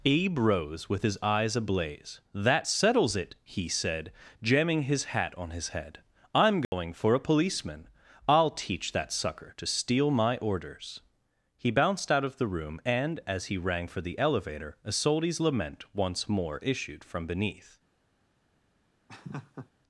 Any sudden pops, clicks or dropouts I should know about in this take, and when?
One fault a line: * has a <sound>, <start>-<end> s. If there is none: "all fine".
* has a dropout, 6.6-6.7 s
* has a laugh, 19.1-19.7 s